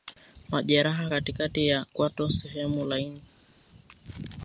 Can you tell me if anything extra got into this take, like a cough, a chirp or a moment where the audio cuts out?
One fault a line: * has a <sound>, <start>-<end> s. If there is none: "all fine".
all fine